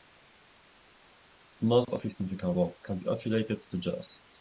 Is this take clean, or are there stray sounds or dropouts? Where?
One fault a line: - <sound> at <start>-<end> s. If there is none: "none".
none